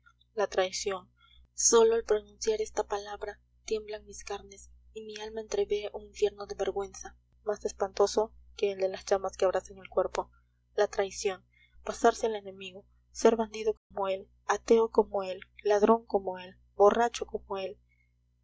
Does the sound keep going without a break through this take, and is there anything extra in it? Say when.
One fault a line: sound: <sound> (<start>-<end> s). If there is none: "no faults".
sound: dropout (13.8-13.9 s)